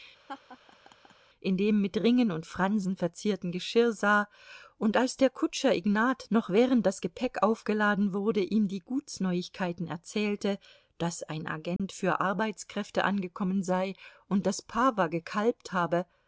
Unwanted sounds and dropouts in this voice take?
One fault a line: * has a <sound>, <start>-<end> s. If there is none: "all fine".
* has a laugh, 0.3-1.1 s
* has a dropout, 11.8-11.8 s